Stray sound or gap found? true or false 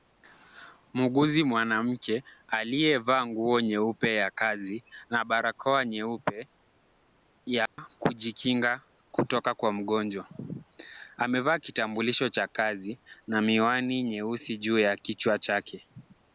true